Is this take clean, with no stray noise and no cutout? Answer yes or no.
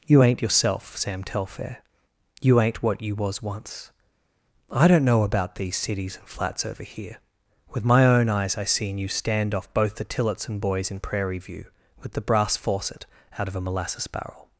yes